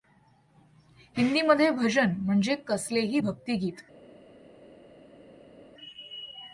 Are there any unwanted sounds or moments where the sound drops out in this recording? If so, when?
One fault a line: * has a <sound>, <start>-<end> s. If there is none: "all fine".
all fine